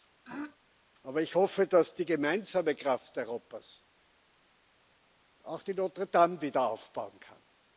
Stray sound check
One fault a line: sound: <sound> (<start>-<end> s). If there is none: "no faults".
sound: throat clearing (0.2-0.6 s)